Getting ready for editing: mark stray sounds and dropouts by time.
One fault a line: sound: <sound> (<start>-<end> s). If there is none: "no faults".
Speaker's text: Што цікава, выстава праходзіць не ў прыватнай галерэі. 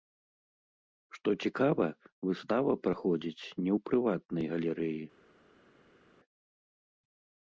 no faults